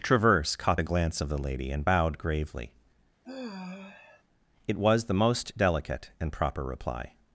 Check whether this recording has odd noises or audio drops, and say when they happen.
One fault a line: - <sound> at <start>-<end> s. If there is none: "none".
- sigh at 3.2-4.2 s